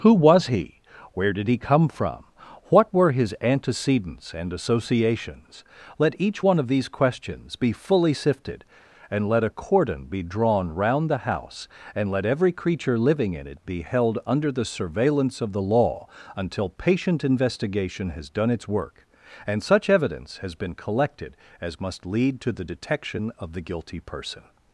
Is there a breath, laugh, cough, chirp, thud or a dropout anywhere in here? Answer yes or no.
no